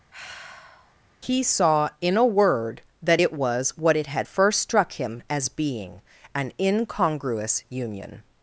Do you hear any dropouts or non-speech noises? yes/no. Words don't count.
yes